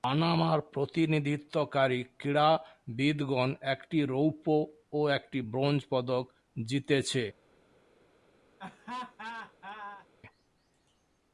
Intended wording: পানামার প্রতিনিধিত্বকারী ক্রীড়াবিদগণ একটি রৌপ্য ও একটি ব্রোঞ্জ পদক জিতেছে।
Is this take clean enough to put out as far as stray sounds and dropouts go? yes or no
no